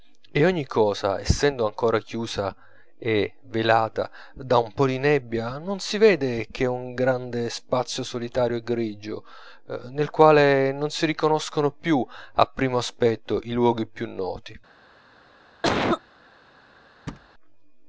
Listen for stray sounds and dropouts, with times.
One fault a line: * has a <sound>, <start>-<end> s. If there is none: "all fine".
* has a cough, 15.6-16.0 s
* has a thud, 17.1-17.3 s